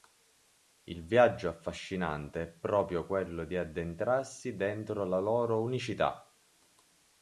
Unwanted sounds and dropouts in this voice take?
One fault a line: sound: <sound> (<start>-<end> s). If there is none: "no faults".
no faults